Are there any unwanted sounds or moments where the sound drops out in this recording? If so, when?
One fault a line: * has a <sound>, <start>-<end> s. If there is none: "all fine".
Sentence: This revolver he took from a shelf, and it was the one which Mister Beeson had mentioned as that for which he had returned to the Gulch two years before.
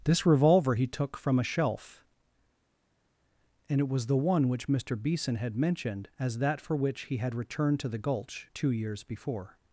all fine